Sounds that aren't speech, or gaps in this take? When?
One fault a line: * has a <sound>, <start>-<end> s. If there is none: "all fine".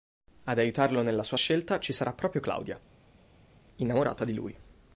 all fine